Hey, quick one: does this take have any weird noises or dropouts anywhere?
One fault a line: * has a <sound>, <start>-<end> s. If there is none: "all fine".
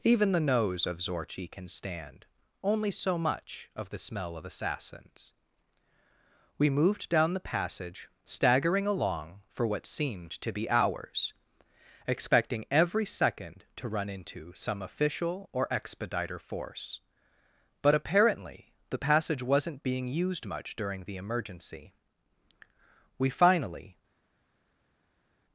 all fine